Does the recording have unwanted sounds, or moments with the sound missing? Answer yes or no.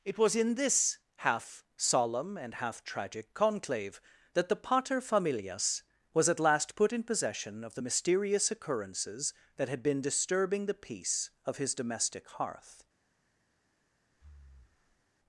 yes